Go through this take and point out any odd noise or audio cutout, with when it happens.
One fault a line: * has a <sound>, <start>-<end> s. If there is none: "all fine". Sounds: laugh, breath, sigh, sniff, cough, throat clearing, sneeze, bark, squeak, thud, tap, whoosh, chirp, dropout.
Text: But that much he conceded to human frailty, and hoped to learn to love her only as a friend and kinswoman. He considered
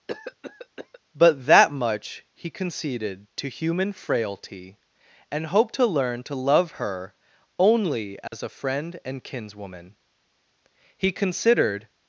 * has a cough, 0.1-1.0 s
* has a dropout, 8.3-8.3 s